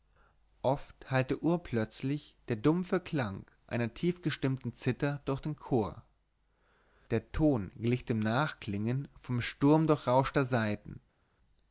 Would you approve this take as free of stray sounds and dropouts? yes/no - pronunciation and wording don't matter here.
yes